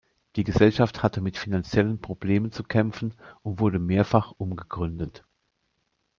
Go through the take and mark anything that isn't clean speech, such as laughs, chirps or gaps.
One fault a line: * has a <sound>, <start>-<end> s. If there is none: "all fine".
all fine